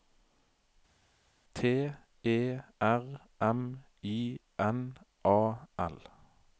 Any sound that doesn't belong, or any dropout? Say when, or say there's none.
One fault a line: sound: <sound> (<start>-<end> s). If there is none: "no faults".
no faults